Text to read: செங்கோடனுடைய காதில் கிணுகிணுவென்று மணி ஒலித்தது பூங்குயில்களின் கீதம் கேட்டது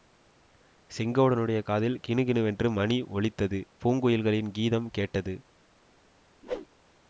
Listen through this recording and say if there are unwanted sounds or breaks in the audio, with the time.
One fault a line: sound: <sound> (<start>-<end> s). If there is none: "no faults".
sound: whoosh (6.4-6.7 s)